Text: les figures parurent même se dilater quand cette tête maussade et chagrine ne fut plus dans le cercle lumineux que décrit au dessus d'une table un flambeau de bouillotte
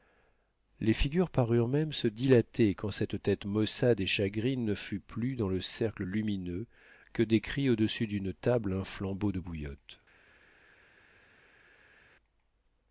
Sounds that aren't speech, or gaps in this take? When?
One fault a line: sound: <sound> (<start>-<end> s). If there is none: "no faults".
no faults